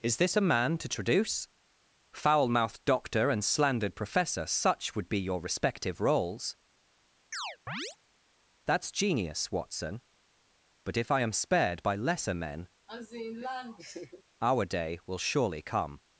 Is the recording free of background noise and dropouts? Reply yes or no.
no